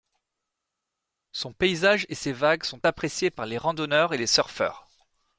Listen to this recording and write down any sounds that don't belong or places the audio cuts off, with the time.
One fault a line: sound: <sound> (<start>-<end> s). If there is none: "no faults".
no faults